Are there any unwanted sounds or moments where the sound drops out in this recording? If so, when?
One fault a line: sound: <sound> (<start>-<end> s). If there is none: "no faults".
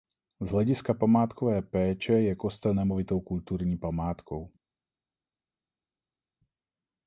no faults